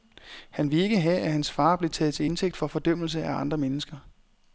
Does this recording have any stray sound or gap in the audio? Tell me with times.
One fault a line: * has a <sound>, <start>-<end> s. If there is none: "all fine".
all fine